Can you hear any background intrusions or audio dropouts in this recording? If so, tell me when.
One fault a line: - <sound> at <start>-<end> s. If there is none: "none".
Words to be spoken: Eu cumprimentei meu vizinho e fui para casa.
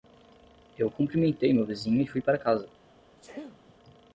- sneeze at 3.2-3.7 s